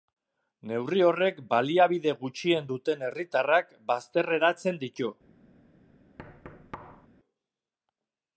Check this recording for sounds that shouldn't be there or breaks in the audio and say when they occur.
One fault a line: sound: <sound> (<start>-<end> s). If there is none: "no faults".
sound: thud (6.2-7.1 s)